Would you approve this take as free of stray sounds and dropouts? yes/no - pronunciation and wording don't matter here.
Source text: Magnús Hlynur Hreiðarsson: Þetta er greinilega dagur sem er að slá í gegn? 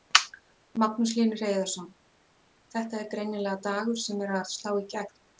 yes